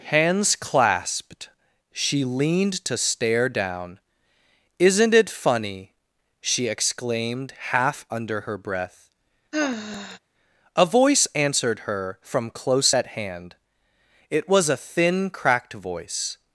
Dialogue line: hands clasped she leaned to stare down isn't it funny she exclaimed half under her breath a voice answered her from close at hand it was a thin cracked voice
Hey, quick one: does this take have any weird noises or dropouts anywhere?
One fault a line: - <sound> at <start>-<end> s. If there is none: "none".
- sigh at 9.5-10.2 s